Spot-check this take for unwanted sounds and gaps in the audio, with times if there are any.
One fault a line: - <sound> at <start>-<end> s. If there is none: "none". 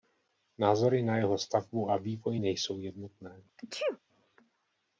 - sneeze at 3.6-4.0 s